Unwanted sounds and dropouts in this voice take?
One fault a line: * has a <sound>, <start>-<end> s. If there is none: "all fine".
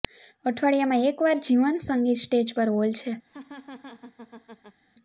* has a laugh, 3.3-4.8 s